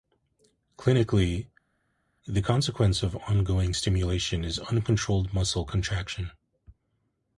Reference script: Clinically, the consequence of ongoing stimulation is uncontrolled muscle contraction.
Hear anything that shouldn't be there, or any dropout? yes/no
no